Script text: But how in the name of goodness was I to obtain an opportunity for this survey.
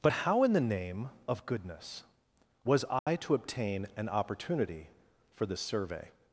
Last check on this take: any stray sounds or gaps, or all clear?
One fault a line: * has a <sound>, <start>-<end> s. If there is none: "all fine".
* has a dropout, 3.0-3.1 s